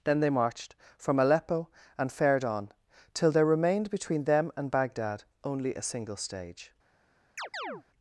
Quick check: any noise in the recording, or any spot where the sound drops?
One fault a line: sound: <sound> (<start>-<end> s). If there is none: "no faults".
sound: chirp (7.4-7.8 s)